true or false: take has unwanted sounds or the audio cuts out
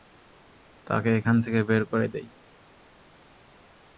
false